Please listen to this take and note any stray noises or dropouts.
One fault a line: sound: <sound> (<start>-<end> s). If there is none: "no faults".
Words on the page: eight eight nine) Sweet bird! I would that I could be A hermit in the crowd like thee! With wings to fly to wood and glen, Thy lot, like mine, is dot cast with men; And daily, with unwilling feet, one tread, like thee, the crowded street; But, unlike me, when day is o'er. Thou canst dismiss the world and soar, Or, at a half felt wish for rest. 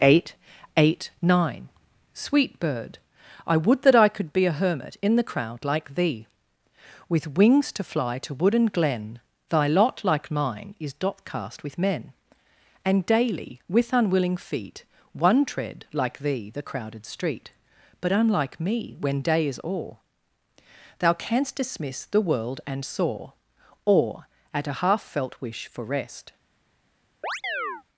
sound: chirp (27.2-27.8 s)